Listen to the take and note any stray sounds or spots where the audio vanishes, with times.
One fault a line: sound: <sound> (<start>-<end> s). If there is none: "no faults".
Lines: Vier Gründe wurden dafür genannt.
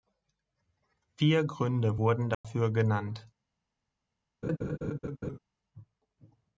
sound: dropout (2.3-2.4 s)
sound: laugh (4.4-5.4 s)